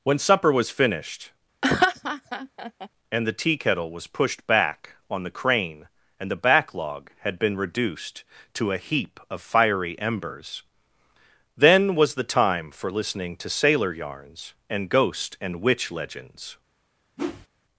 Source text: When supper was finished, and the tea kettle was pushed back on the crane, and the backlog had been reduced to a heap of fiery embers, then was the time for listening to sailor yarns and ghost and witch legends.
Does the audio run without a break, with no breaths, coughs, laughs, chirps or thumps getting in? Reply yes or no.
no